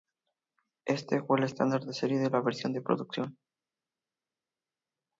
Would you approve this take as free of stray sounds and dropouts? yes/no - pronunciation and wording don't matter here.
yes